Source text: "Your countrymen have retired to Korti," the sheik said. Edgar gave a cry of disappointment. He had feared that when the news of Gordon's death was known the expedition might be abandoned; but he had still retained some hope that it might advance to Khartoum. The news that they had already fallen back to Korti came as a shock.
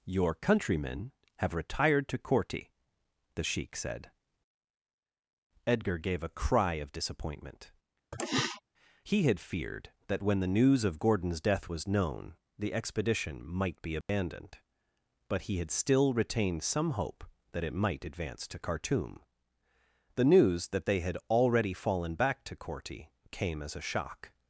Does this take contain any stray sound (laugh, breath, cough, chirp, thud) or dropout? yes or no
yes